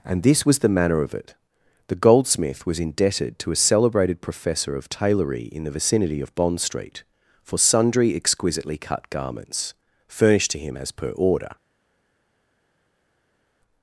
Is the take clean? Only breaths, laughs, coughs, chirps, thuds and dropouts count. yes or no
yes